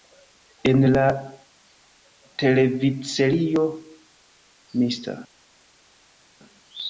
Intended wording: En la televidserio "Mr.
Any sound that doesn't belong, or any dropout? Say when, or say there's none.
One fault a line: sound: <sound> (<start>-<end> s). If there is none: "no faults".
no faults